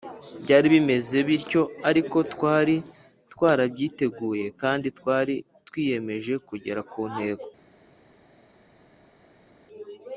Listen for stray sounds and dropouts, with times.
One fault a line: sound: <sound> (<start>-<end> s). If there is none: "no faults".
no faults